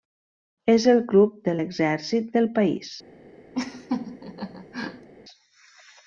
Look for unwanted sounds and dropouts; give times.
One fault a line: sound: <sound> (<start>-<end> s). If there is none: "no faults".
sound: laugh (3.5-5.1 s)